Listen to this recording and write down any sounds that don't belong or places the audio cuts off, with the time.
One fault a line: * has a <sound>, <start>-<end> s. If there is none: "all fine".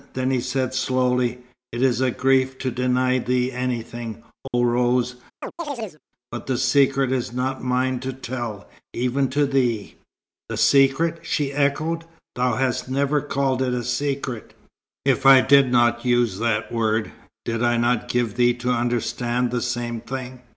* has a dropout, 4.5-4.5 s
* has a chirp, 5.4-6.0 s